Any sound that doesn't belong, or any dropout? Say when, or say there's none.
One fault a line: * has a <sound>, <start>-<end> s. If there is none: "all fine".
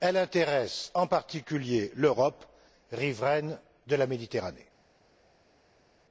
all fine